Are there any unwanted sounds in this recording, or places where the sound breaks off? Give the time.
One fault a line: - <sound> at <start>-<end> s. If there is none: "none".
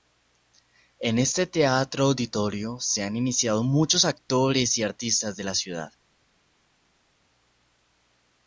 none